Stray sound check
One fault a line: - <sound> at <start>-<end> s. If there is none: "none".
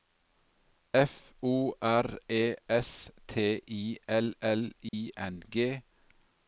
- dropout at 4.9-4.9 s